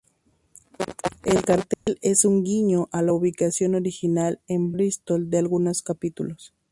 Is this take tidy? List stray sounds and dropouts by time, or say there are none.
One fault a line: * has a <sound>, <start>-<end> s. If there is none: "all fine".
* has a dropout, 1.7-1.9 s